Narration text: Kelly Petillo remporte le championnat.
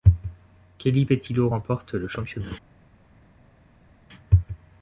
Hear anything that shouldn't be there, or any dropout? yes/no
no